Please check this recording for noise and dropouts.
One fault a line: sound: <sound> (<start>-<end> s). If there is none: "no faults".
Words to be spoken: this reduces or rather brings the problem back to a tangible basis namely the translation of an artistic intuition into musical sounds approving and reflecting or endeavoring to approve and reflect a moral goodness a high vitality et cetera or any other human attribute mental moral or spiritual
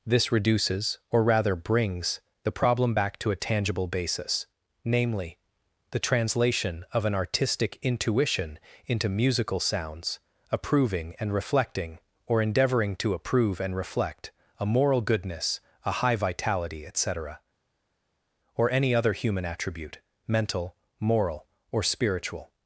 no faults